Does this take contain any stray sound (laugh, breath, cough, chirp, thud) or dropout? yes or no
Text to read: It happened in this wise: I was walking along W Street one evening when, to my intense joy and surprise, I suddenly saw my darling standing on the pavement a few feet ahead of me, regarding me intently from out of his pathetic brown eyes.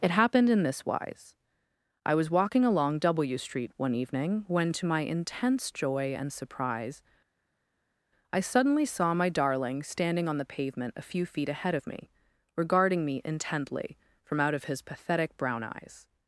no